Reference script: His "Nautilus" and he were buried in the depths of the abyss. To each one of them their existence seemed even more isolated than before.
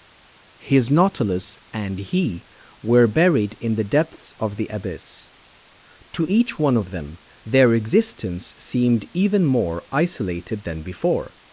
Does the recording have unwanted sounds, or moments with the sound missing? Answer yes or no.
no